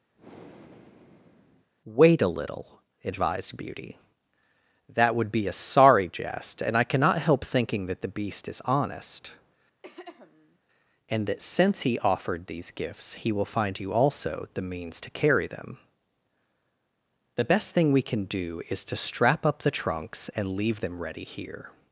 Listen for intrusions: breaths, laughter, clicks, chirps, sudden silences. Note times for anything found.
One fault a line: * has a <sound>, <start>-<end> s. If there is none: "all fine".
* has a breath, 0.1-1.7 s
* has a throat clearing, 9.8-10.6 s